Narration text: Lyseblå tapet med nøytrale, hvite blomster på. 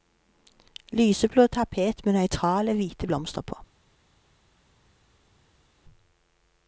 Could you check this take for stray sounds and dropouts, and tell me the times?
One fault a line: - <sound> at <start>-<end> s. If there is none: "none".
none